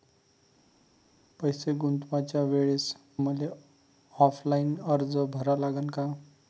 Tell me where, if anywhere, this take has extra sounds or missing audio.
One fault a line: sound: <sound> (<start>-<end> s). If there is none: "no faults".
no faults